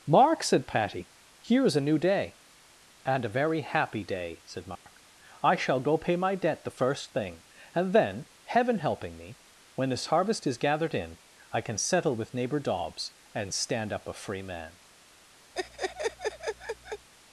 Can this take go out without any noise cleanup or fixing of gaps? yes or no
no